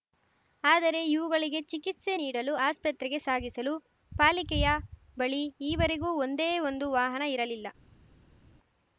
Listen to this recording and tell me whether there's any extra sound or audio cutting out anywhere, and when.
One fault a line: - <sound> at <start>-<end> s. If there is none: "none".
none